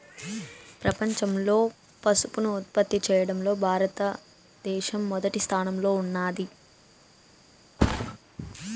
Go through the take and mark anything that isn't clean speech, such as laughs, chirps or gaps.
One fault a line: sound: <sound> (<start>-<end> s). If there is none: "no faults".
sound: thud (7.8-8.2 s)